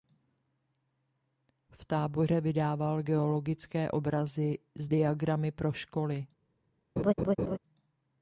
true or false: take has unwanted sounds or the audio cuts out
true